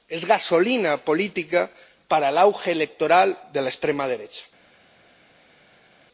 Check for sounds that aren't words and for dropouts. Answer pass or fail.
pass